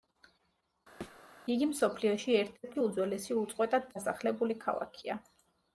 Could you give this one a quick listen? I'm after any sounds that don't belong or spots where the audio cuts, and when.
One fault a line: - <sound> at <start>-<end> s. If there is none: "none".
- thud at 1.0-1.2 s